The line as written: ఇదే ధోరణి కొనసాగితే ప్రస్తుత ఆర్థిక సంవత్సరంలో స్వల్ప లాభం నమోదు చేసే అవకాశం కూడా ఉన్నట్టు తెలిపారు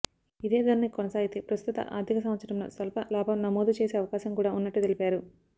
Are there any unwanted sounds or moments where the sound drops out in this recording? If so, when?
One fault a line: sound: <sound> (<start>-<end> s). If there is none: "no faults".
no faults